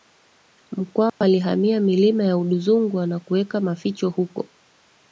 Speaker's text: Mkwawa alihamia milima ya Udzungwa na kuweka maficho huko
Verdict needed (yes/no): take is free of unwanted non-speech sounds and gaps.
no